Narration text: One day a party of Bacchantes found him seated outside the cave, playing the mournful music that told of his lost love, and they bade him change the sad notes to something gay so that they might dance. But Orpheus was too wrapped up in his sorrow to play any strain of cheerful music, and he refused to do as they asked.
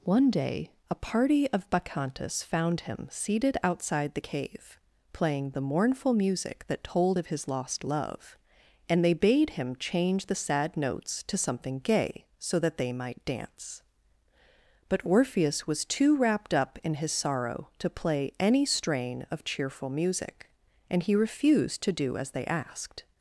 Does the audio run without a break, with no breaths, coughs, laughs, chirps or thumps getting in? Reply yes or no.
yes